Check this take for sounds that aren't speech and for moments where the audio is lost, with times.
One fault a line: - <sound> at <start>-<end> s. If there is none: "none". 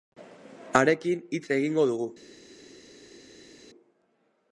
none